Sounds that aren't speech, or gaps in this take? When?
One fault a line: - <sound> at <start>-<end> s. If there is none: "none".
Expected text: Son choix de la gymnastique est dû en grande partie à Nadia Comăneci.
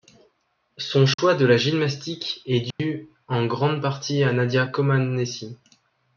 - dropout at 1.1-1.2 s
- dropout at 2.7-2.8 s